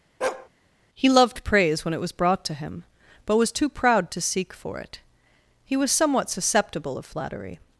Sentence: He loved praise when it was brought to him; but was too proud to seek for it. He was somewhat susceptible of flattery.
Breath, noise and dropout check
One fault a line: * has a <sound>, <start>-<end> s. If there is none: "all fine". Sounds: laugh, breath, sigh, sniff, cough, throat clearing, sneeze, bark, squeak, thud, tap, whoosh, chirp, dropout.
* has a bark, 0.2-0.5 s